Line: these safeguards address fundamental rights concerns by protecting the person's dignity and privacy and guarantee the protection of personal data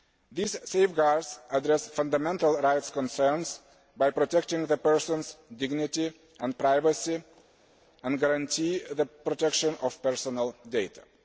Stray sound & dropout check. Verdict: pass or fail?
pass